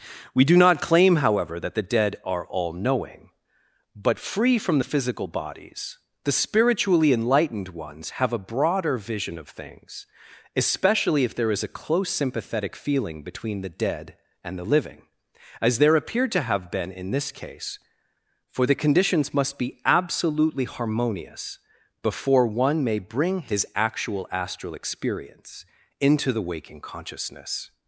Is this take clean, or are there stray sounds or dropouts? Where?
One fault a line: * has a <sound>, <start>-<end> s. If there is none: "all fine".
all fine